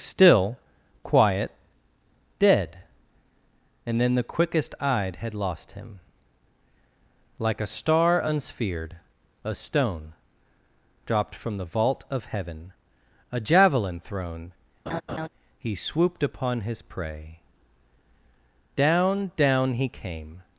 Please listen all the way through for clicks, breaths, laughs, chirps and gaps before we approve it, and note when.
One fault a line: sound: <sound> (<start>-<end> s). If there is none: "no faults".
sound: laugh (14.9-15.3 s)